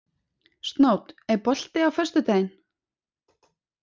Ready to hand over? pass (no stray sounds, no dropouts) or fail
pass